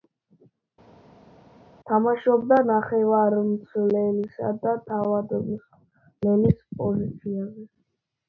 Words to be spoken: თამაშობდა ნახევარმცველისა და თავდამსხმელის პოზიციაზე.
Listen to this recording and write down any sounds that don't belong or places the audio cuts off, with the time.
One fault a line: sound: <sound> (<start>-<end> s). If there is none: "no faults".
no faults